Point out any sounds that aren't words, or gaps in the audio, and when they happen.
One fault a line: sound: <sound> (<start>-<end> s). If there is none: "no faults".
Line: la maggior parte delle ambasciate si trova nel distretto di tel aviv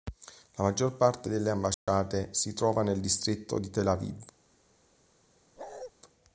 sound: dropout (1.7-1.9 s)
sound: bark (5.6-5.9 s)